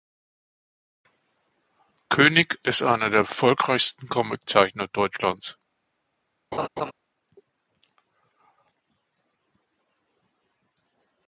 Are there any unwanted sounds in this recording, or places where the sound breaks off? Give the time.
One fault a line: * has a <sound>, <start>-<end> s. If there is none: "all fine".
* has a laugh, 6.5-6.9 s